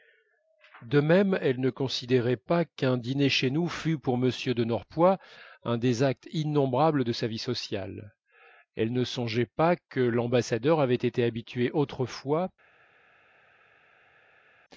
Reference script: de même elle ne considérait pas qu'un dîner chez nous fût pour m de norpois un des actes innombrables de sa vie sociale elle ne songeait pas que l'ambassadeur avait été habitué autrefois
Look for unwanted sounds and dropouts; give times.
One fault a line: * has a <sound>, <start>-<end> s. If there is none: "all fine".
all fine